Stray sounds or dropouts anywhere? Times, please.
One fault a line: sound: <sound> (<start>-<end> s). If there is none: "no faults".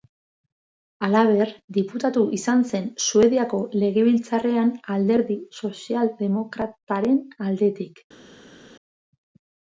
no faults